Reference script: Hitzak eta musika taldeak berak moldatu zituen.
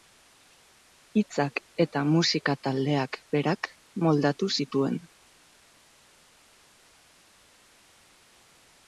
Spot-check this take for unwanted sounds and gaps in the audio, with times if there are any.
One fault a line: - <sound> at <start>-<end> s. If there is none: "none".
none